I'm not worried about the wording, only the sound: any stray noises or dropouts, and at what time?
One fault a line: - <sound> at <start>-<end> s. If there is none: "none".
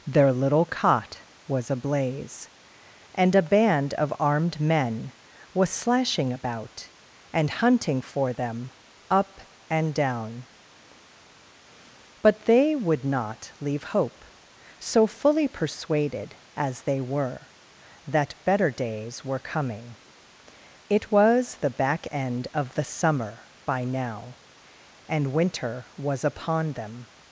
none